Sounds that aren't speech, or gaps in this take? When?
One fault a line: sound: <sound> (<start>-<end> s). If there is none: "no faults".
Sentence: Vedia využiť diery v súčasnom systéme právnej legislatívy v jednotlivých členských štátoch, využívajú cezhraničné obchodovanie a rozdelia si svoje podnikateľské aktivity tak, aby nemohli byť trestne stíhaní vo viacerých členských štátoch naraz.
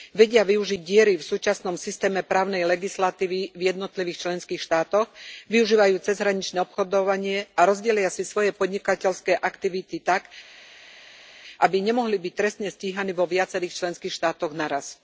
no faults